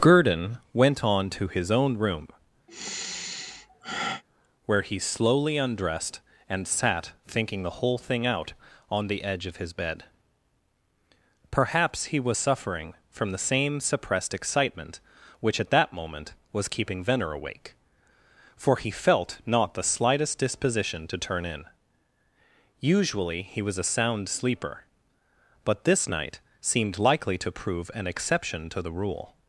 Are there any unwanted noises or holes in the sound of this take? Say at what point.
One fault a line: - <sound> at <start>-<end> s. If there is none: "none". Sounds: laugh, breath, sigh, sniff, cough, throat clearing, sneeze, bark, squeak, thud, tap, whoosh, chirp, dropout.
- sigh at 2.7-4.2 s